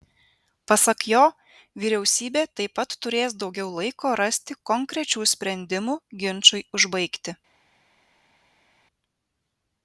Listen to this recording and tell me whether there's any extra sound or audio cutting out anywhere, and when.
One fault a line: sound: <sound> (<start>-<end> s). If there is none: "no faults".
no faults